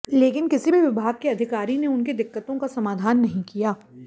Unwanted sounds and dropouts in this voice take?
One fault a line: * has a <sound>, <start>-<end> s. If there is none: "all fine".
all fine